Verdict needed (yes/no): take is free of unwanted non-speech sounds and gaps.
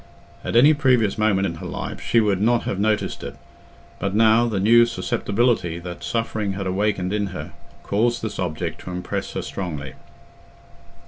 yes